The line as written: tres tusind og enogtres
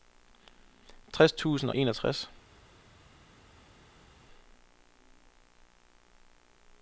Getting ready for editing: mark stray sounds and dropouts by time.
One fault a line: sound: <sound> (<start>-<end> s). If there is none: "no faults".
no faults